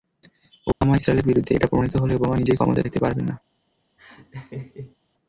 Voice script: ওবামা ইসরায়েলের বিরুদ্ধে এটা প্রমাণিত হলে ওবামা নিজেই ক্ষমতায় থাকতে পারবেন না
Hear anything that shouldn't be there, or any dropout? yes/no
yes